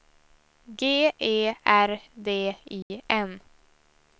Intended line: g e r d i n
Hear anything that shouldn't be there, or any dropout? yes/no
yes